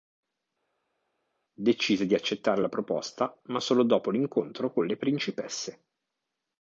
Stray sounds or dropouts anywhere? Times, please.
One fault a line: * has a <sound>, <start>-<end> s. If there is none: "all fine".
all fine